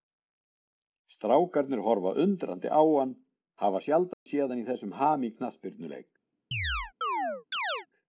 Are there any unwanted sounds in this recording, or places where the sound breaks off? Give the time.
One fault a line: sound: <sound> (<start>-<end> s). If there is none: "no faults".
sound: dropout (4.1-4.3 s)
sound: chirp (6.5-7.9 s)